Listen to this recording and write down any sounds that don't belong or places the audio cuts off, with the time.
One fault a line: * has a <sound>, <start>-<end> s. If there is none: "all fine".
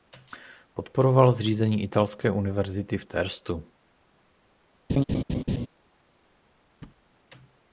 * has a laugh, 4.9-5.7 s
* has a thud, 6.8-7.0 s